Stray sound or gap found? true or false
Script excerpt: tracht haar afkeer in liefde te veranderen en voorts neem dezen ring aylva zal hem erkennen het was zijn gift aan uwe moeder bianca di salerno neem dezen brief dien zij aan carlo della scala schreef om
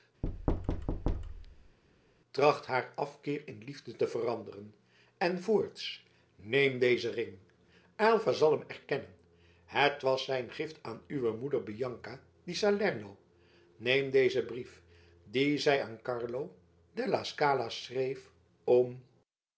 true